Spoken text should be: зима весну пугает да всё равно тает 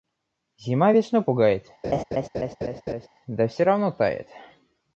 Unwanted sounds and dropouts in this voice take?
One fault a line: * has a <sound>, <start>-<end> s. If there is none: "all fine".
* has a laugh, 1.8-3.1 s